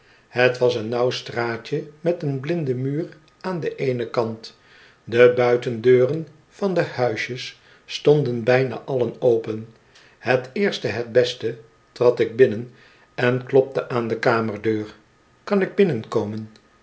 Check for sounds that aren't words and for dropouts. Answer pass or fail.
pass